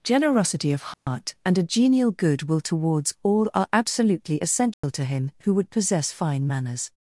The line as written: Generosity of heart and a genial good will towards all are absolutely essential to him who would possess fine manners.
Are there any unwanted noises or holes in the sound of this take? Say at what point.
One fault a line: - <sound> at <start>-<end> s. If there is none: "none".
- dropout at 0.9-1.1 s
- dropout at 4.7-4.8 s